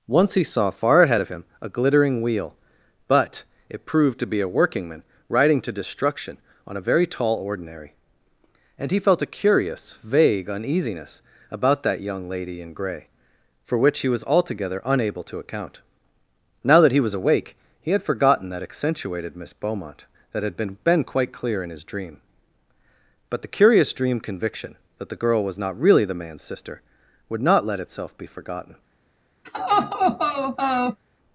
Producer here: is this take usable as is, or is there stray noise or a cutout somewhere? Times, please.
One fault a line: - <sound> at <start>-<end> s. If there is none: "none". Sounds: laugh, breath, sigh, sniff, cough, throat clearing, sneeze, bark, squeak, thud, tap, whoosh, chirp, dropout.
- laugh at 29.4-31.0 s